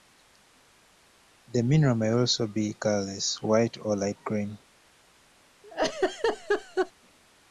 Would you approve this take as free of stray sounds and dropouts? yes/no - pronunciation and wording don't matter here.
no